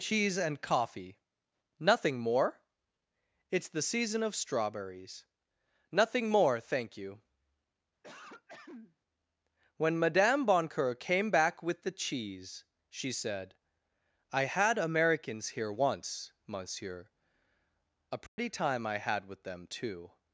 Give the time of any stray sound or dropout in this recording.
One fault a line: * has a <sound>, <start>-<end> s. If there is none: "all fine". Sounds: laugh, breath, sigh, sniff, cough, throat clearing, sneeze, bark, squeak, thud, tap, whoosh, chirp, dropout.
* has a throat clearing, 8.0-9.0 s
* has a dropout, 18.3-18.4 s